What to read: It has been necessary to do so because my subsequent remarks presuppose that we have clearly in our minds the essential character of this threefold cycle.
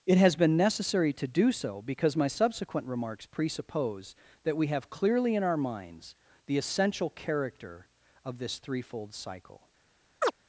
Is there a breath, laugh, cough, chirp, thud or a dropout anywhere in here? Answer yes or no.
yes